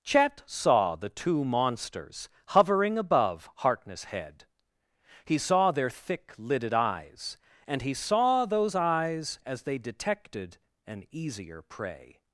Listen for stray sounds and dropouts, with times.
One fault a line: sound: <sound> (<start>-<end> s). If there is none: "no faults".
no faults